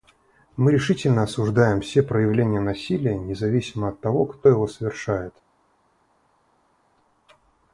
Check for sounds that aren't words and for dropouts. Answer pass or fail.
pass